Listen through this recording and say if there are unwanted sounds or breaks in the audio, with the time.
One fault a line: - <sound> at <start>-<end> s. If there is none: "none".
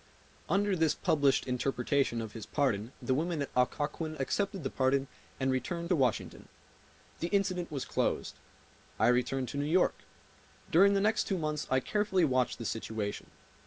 none